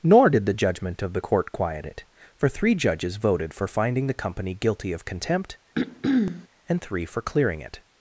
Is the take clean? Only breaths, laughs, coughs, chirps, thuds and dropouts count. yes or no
no